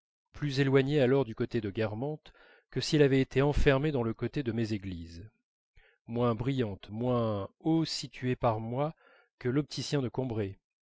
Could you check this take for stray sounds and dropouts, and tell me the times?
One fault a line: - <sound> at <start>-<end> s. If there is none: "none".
none